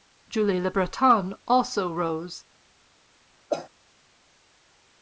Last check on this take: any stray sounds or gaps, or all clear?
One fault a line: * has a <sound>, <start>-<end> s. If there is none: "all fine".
* has a cough, 3.5-3.7 s